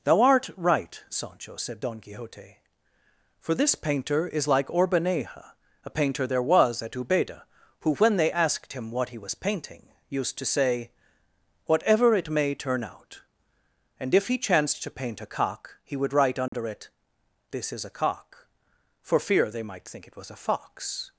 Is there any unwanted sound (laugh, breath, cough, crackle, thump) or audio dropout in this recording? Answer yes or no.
yes